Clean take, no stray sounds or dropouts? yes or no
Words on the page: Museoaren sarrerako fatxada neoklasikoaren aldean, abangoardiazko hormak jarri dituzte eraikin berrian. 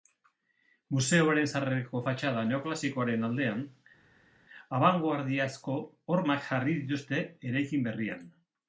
yes